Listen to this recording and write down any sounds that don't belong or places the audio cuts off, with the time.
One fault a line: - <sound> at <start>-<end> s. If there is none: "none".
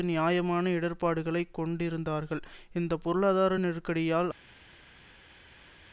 none